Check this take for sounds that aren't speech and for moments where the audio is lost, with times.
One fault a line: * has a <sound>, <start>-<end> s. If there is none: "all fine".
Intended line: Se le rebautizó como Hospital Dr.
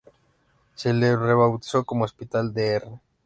all fine